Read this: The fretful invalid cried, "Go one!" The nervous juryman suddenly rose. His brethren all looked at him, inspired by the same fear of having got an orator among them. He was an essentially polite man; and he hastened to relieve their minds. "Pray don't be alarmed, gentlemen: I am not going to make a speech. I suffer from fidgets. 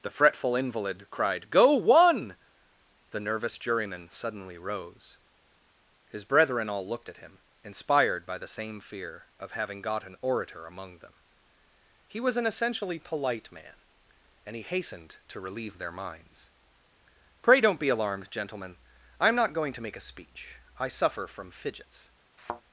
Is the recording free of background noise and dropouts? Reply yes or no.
no